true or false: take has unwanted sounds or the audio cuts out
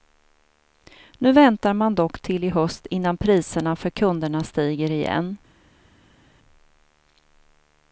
false